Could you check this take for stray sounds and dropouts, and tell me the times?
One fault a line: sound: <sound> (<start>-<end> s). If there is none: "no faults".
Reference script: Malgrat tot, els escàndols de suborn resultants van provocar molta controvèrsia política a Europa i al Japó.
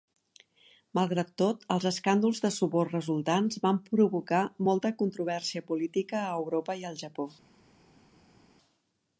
no faults